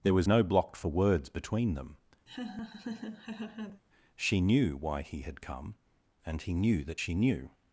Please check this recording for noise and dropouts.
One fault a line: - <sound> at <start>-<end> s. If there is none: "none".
- laugh at 2.3-3.8 s